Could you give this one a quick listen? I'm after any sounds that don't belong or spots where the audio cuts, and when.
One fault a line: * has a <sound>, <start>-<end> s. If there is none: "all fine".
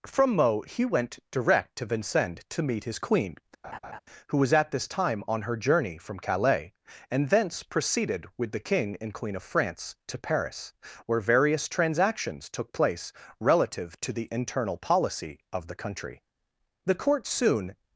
* has a laugh, 3.6-4.0 s